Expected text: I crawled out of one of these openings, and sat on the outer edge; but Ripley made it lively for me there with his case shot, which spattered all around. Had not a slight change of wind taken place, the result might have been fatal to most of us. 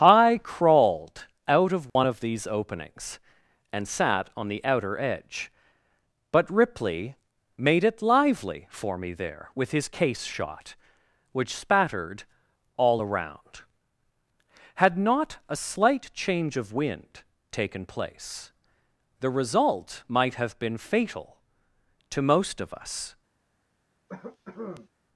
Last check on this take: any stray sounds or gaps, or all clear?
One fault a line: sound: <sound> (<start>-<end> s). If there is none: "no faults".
sound: dropout (1.9-2.0 s)
sound: cough (24.1-24.9 s)